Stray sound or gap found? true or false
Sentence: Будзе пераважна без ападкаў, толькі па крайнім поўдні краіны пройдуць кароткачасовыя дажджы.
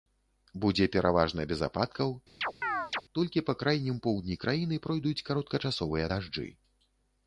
true